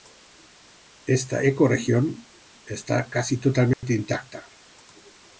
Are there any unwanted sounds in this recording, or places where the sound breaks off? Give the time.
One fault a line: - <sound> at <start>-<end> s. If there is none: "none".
- dropout at 3.7-3.8 s